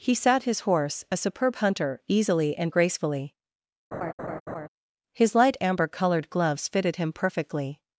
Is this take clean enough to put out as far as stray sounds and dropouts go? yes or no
no